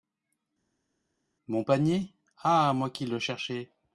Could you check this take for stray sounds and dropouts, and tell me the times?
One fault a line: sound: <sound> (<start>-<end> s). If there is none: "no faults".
no faults